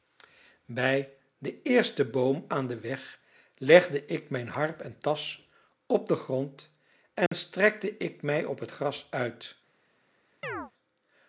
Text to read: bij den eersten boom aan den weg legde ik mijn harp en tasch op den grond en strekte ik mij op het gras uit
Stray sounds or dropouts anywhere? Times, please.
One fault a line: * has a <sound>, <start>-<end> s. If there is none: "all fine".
* has a dropout, 7.3-7.3 s
* has a chirp, 10.4-10.7 s